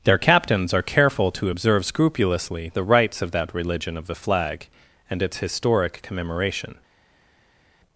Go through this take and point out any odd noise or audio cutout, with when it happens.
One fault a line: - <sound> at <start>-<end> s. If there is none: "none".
none